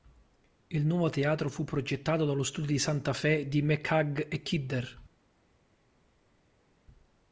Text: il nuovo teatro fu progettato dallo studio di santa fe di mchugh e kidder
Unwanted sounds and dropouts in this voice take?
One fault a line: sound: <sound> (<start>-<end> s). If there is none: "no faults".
no faults